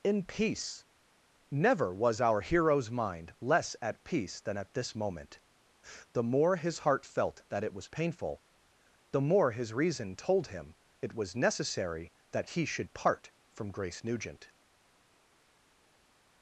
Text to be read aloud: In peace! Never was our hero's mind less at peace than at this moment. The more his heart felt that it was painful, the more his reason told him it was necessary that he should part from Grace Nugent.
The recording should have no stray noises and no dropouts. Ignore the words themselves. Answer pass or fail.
pass